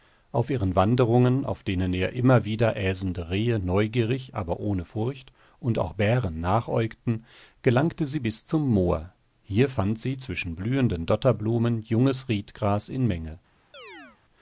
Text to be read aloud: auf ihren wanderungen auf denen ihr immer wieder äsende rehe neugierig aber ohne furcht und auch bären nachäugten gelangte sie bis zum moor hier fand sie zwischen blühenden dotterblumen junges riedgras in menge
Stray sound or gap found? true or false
true